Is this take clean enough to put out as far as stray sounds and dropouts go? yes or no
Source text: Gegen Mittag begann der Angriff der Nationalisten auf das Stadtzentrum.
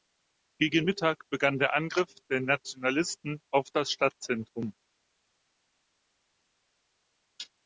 yes